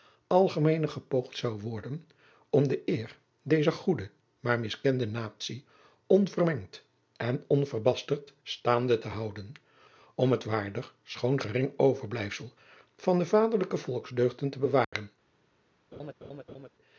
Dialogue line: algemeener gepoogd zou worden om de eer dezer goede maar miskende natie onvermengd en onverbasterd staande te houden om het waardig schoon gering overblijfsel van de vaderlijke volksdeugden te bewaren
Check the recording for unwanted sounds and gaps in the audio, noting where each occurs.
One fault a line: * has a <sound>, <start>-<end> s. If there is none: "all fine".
* has a dropout, 14.8-14.9 s
* has a laugh, 15.9-16.7 s